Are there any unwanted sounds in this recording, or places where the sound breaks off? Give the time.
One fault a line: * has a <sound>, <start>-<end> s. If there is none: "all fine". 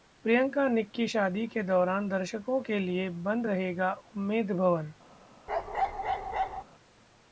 * has a bark, 5.5-6.6 s